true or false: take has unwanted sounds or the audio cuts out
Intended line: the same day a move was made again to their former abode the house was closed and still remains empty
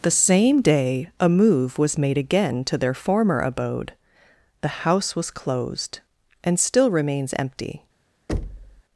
true